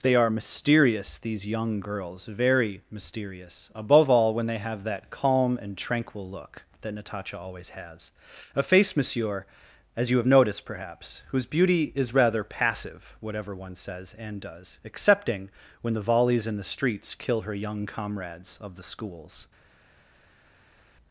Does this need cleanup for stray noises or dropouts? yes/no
no